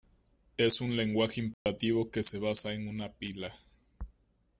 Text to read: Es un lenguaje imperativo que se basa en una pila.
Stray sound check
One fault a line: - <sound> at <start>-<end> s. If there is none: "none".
- dropout at 1.5-1.7 s